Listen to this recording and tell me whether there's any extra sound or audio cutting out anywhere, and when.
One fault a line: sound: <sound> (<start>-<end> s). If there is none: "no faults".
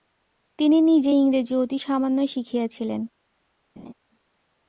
sound: laugh (3.8-3.9 s)